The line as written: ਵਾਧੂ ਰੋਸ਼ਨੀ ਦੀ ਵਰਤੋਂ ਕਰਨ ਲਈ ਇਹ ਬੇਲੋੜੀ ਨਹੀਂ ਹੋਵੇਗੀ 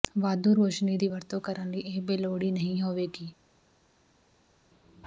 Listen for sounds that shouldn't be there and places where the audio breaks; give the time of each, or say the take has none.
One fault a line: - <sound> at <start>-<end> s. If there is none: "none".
none